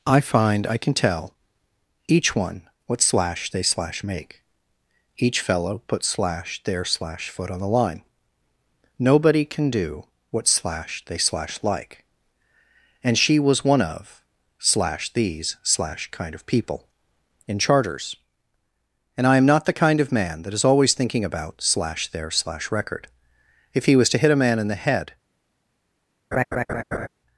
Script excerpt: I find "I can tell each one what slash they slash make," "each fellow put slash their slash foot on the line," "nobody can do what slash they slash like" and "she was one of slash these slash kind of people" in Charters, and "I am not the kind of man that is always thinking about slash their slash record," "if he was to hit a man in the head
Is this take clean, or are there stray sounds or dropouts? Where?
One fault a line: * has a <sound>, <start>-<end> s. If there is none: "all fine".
* has a laugh, 26.3-27.1 s